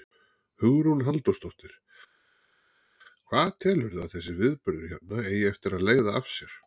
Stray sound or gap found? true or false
false